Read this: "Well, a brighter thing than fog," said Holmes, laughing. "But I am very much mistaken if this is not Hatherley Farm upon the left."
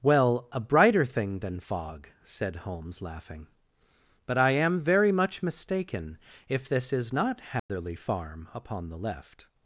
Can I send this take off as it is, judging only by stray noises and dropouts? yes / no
no